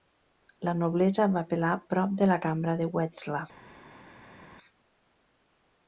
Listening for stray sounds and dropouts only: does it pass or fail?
pass